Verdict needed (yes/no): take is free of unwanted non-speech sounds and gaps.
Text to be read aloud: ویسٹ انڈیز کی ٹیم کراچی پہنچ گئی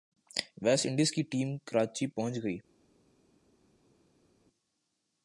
yes